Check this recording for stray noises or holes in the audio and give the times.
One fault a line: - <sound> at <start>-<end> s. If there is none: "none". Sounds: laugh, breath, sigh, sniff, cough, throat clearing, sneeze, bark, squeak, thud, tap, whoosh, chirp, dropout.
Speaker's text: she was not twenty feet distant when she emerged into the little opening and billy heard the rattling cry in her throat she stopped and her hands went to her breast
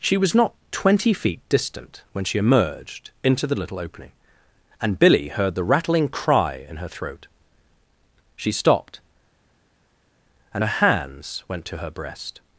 none